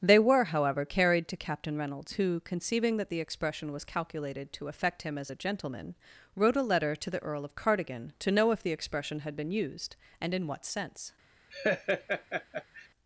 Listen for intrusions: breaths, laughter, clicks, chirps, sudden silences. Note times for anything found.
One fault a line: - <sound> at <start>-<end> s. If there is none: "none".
- laugh at 11.5-12.9 s